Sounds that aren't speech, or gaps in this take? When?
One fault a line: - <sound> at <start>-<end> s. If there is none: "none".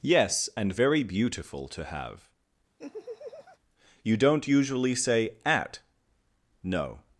- laugh at 2.8-3.6 s